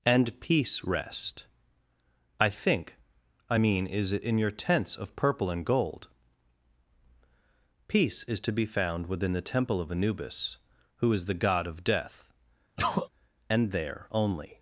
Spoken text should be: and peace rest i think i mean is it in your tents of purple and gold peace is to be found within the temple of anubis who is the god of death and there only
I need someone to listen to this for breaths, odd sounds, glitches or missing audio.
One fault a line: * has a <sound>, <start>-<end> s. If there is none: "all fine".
* has a sneeze, 12.8-13.1 s